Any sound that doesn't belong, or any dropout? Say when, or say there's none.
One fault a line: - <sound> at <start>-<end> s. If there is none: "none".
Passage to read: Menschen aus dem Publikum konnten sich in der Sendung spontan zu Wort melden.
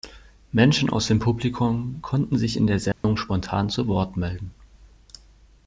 - dropout at 2.9-3.0 s